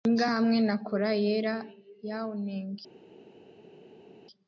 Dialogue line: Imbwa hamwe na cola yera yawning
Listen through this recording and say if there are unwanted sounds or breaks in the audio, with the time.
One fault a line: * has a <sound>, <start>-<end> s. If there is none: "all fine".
all fine